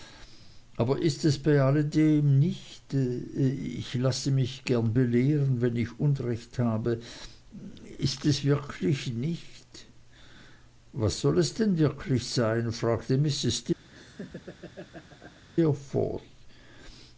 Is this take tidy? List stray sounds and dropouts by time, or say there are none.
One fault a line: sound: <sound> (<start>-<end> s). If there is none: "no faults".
sound: laugh (13.9-15.4 s)